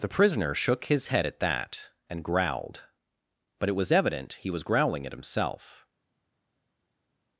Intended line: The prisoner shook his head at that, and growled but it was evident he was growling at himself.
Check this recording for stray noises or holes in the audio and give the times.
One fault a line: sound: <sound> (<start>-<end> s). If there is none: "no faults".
no faults